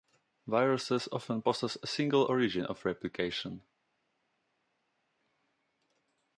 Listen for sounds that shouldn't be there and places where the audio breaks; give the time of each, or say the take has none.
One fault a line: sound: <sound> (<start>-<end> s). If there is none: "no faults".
no faults